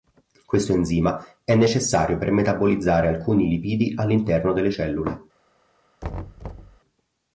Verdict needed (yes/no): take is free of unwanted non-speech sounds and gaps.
no